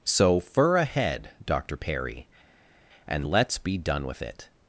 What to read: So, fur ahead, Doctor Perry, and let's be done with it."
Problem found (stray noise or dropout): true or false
false